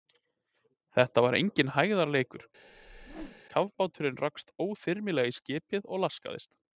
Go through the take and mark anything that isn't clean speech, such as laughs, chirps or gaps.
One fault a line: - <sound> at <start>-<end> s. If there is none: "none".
- whoosh at 2.7-3.4 s